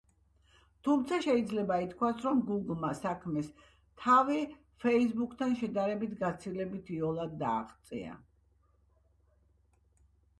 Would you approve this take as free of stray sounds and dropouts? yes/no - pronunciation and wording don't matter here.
yes